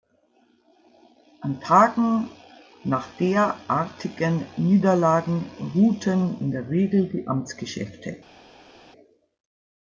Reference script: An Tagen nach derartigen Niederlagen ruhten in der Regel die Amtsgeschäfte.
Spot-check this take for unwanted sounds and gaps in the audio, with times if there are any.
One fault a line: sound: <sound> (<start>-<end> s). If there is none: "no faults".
no faults